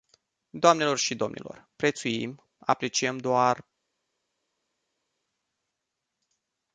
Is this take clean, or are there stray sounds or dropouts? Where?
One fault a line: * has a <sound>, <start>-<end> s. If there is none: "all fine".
all fine